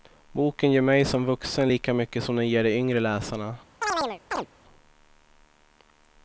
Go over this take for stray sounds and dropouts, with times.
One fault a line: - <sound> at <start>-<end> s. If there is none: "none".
- chirp at 3.8-4.5 s